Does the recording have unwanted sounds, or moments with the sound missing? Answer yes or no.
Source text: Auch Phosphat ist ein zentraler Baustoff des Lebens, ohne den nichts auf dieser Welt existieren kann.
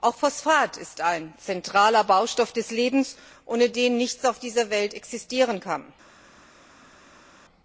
no